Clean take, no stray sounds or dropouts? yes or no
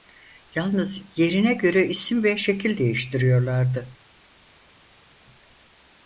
yes